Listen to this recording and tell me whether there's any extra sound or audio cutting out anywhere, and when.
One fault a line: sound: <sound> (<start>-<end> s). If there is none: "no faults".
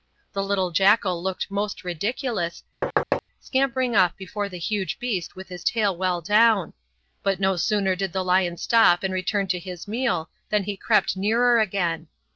sound: thud (2.8-3.2 s)